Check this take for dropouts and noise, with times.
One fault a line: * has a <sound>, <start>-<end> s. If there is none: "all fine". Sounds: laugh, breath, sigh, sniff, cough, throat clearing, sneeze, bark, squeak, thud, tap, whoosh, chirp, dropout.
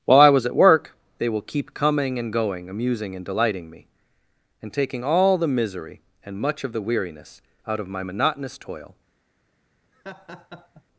* has a laugh, 9.9-10.8 s